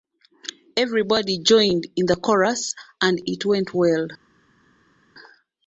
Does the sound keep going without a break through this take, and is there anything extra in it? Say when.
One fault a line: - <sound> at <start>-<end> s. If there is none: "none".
none